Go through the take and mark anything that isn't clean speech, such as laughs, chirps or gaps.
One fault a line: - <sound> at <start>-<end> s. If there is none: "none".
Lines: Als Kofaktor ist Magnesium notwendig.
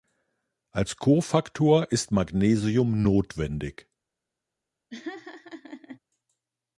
- laugh at 4.9-6.0 s